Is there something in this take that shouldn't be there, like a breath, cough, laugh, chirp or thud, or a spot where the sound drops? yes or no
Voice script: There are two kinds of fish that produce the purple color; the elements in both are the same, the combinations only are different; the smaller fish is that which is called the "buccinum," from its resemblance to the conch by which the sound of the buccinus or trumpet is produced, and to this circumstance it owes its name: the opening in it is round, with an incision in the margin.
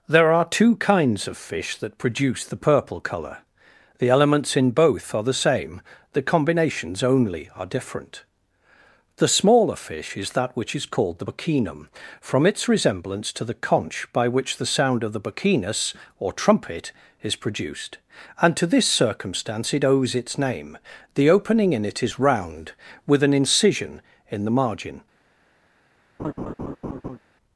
yes